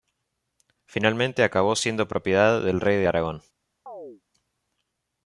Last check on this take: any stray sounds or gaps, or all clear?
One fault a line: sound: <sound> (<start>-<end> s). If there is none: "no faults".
sound: chirp (3.9-4.2 s)